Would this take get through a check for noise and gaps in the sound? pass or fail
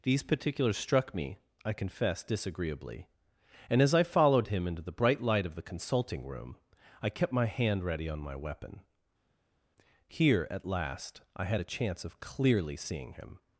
pass